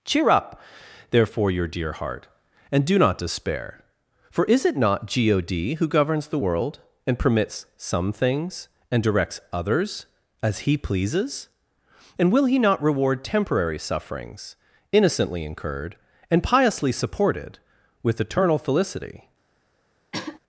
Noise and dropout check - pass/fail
fail